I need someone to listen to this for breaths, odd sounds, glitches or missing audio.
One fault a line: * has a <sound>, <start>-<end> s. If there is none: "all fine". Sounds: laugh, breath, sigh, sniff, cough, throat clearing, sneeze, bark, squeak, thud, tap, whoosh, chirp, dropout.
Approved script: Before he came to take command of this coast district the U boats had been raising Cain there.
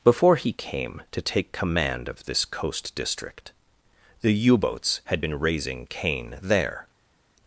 all fine